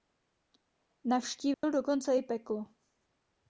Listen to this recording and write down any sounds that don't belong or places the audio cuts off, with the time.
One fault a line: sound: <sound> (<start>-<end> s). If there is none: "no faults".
sound: dropout (1.5-1.6 s)